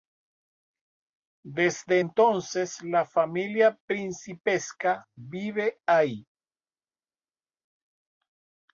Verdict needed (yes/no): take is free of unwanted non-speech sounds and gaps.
yes